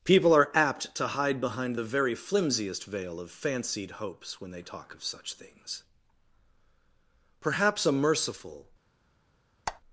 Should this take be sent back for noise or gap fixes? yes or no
yes